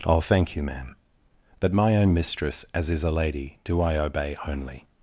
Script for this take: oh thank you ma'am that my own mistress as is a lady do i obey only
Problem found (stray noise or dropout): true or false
false